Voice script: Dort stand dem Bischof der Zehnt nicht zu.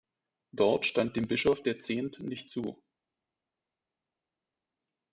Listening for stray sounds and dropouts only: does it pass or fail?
pass